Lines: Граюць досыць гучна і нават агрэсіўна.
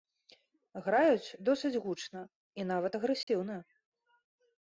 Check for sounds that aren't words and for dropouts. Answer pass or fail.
fail